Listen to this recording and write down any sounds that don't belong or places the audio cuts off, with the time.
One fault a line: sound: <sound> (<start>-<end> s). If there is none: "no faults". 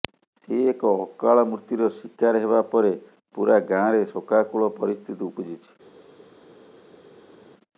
no faults